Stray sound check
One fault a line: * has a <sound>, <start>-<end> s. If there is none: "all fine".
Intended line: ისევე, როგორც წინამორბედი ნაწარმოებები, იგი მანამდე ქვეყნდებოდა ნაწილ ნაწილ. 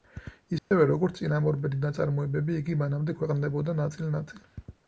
* has a dropout, 0.6-0.7 s